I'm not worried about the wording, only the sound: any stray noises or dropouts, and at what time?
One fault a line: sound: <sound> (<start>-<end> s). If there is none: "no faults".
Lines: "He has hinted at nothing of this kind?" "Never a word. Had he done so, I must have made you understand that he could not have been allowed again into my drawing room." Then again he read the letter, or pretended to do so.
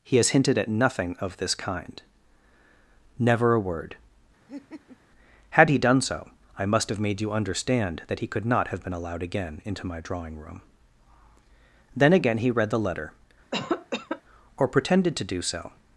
sound: laugh (4.5-5.0 s)
sound: cough (13.5-14.2 s)